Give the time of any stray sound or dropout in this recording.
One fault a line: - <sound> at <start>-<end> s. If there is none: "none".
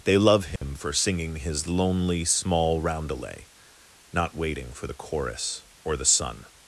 - dropout at 0.6-0.6 s